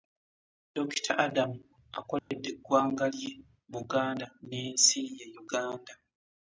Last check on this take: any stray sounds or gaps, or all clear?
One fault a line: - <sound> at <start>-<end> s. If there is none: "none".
- dropout at 2.2-2.3 s